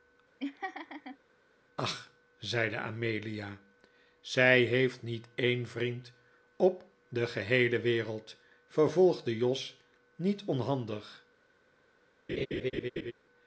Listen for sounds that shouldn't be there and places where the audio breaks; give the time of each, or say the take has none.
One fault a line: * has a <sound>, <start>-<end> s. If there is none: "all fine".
* has a laugh, 0.4-1.2 s
* has a laugh, 12.3-13.1 s